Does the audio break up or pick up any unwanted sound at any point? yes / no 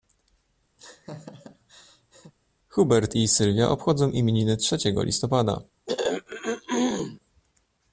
yes